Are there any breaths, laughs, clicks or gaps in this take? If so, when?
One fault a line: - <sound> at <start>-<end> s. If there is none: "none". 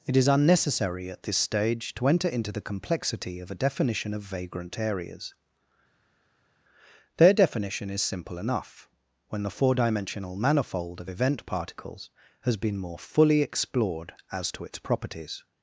none